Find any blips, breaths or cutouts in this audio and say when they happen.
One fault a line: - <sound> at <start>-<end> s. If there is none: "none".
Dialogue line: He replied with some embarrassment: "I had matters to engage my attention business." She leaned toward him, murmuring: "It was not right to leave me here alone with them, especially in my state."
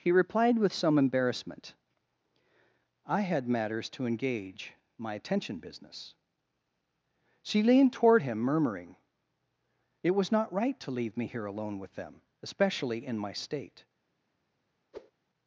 - whoosh at 14.9-15.1 s